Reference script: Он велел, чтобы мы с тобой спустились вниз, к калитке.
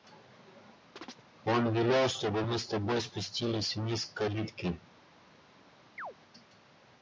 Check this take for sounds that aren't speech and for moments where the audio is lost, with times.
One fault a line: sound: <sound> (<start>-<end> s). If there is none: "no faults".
sound: chirp (1.0-1.2 s)
sound: chirp (6.0-6.1 s)